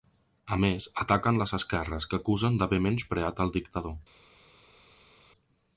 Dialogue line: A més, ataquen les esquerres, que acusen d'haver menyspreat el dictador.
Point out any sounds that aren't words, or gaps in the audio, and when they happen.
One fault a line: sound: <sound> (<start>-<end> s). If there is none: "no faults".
no faults